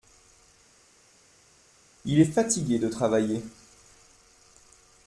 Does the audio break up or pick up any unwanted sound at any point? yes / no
no